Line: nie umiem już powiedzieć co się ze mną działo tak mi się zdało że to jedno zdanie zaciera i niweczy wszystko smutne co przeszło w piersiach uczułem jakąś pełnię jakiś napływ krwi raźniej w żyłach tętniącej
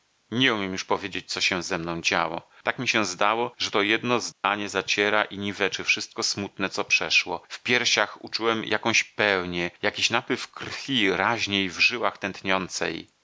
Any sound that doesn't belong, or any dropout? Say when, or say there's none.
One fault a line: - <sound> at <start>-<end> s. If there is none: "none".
- dropout at 4.3-4.4 s